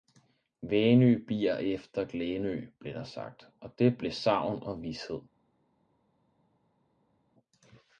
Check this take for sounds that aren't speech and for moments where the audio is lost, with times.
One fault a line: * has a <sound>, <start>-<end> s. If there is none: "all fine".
all fine